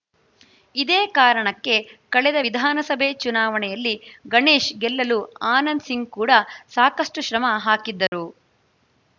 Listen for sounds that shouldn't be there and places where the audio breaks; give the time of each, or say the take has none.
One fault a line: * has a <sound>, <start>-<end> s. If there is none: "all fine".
* has a dropout, 8.1-8.1 s